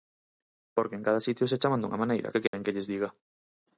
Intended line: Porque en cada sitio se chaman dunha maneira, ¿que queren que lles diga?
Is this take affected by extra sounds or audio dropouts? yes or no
yes